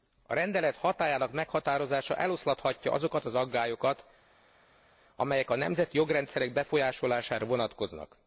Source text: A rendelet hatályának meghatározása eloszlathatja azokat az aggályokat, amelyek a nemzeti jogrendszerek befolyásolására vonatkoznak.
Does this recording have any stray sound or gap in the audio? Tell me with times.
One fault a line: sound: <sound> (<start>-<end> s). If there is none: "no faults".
no faults